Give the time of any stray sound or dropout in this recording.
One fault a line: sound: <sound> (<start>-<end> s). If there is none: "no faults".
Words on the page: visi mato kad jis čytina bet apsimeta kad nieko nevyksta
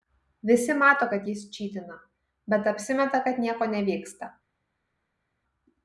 no faults